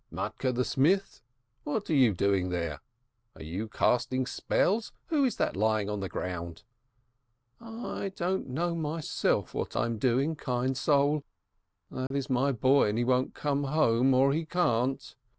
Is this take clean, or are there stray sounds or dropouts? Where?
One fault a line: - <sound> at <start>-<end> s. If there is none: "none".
- dropout at 12.1-12.1 s